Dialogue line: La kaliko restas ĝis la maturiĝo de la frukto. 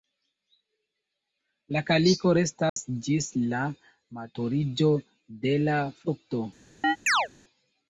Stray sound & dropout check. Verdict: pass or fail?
fail